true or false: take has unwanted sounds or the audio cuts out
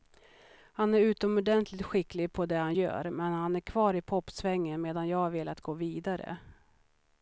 false